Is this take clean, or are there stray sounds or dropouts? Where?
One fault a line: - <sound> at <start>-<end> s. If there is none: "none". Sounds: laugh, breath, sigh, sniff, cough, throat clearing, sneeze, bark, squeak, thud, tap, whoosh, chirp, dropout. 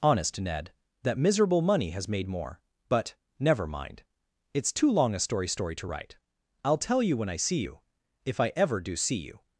none